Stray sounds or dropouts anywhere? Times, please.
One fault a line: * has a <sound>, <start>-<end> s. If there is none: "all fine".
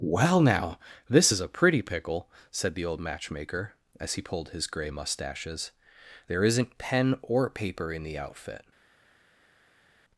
all fine